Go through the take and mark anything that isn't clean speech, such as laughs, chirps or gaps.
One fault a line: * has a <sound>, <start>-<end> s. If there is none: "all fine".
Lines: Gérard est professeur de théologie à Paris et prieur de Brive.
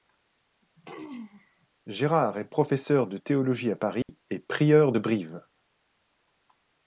* has a throat clearing, 0.8-1.7 s
* has a dropout, 4.0-4.1 s